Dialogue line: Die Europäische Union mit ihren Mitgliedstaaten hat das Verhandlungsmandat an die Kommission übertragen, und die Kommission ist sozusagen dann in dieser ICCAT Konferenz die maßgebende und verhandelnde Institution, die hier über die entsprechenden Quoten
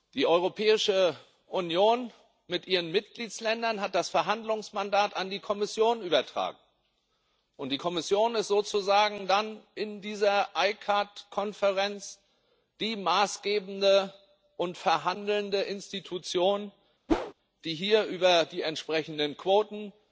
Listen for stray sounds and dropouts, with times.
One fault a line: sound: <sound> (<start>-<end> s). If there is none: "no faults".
sound: whoosh (17.1-17.3 s)